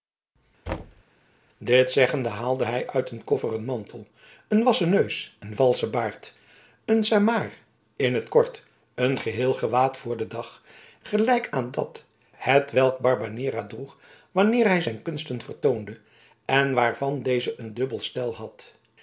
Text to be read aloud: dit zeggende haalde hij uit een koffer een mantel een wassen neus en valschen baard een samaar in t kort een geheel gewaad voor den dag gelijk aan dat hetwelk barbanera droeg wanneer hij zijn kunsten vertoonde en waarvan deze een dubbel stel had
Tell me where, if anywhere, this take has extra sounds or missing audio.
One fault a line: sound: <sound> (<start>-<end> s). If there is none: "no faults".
sound: thud (0.7-1.0 s)